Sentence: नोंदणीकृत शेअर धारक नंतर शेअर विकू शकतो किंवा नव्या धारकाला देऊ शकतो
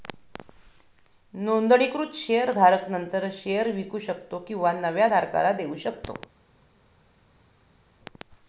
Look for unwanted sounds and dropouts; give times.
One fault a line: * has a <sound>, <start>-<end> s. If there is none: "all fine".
all fine